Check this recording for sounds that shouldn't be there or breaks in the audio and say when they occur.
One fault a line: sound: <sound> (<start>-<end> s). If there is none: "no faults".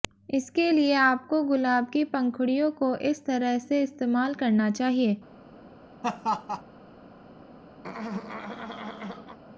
sound: laugh (6.0-6.6 s)
sound: throat clearing (7.8-9.4 s)